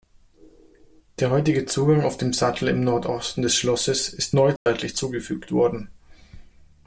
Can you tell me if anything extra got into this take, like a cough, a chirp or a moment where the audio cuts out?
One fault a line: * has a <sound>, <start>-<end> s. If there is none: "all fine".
* has a dropout, 4.6-4.7 s